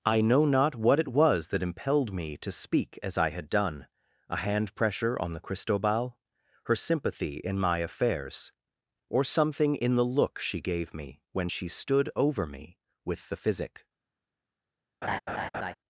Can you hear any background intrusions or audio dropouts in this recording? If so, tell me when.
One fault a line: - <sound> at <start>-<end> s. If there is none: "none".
- laugh at 15.0-15.7 s